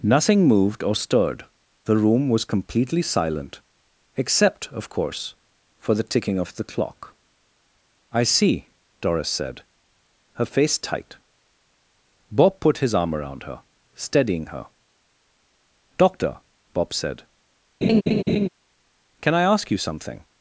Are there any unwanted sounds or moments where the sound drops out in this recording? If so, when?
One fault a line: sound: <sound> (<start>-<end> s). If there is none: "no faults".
sound: laugh (17.8-18.5 s)